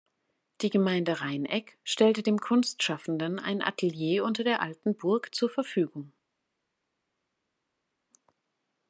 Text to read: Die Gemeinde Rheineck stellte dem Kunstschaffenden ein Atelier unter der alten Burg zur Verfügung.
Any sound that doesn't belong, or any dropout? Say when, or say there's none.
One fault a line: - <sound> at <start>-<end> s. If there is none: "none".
none